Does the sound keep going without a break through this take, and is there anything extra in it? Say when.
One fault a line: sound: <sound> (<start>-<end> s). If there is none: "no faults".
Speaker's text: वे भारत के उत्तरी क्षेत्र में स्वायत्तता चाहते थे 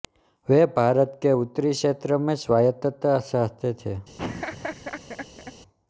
sound: laugh (4.2-5.5 s)